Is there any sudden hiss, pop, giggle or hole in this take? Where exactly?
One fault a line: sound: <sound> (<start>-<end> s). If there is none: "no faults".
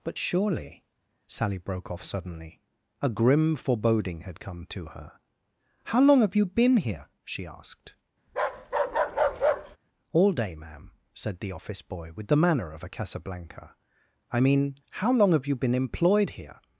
sound: bark (8.3-9.8 s)